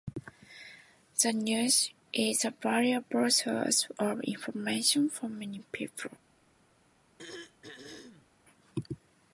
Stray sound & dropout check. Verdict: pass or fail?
fail